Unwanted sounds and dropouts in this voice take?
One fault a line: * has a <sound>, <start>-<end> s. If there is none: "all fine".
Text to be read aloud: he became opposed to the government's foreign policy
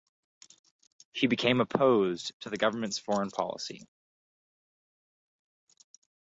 all fine